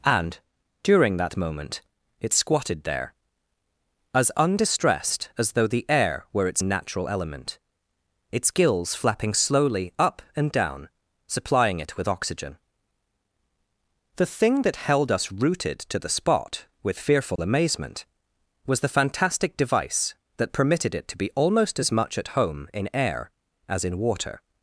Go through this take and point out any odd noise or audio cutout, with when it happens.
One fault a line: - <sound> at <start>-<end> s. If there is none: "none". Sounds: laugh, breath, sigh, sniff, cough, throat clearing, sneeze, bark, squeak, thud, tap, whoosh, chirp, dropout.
- dropout at 17.4-17.4 s